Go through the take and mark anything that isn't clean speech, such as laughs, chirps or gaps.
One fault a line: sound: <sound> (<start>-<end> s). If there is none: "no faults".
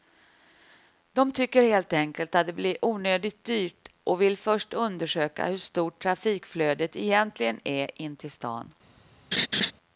sound: laugh (9.3-9.7 s)